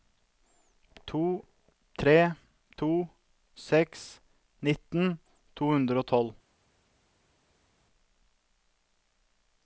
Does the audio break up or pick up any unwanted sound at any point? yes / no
no